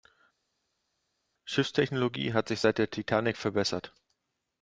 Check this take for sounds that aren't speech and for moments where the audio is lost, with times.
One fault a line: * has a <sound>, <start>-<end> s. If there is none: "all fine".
all fine